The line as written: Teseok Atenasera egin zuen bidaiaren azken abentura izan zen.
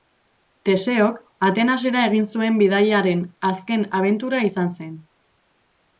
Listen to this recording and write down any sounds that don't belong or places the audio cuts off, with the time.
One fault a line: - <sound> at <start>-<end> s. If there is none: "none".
none